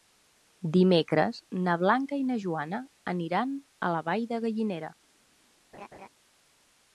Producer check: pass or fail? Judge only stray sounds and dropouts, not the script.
fail